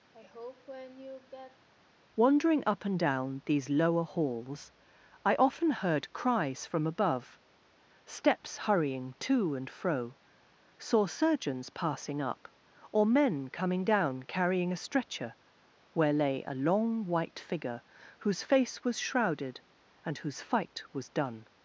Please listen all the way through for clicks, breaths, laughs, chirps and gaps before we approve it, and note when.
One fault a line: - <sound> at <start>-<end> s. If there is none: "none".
- sigh at 0.1-1.7 s